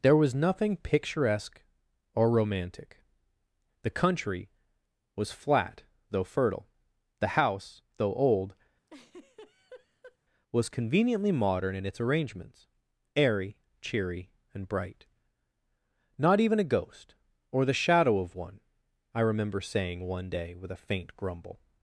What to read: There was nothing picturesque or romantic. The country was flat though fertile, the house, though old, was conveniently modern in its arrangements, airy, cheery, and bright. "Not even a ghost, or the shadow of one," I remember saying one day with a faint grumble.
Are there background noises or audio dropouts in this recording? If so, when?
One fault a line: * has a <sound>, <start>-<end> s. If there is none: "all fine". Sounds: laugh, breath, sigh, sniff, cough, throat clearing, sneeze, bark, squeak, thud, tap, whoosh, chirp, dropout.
* has a laugh, 8.9-10.2 s